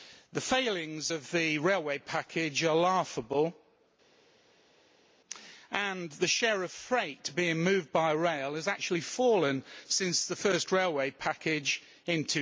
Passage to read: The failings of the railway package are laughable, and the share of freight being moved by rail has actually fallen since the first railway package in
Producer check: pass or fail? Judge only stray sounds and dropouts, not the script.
pass